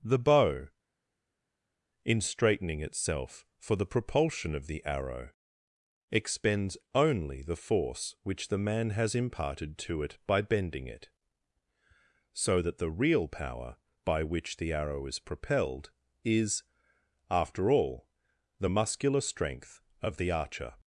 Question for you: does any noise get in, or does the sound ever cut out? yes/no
no